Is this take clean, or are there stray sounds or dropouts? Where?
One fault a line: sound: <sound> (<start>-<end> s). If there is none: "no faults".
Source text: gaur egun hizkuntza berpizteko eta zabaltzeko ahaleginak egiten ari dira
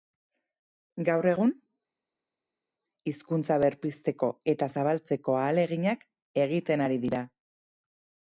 no faults